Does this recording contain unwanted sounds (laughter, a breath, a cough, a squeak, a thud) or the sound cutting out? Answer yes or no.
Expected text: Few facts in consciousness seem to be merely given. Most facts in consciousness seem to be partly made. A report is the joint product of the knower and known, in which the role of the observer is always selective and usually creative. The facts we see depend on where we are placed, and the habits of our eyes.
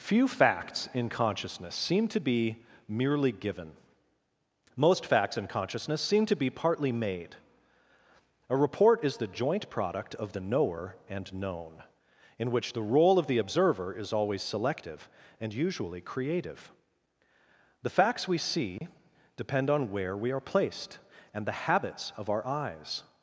yes